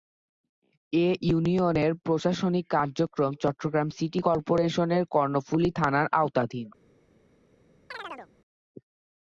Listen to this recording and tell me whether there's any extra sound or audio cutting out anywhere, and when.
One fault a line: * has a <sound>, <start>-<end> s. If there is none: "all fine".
* has a chirp, 7.9-8.3 s